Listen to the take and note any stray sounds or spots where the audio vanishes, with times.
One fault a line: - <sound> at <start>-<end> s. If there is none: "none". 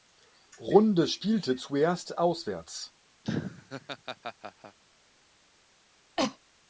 - laugh at 3.2-4.8 s
- cough at 6.2-6.4 s